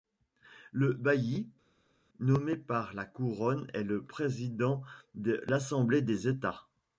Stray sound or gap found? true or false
false